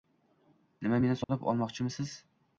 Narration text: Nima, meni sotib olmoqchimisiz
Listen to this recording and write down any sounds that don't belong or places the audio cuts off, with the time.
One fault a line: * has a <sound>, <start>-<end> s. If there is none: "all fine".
* has a dropout, 1.2-1.3 s